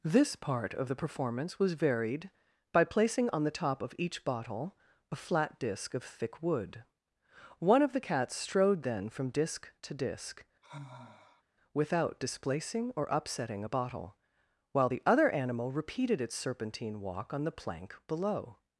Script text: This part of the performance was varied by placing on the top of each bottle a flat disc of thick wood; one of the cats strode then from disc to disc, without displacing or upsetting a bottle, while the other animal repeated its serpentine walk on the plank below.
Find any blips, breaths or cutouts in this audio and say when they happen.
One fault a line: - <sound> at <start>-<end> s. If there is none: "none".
- sigh at 10.6-11.4 s